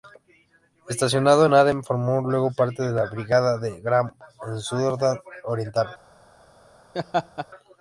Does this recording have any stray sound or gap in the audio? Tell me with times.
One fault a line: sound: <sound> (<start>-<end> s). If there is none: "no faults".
sound: laugh (6.9-7.5 s)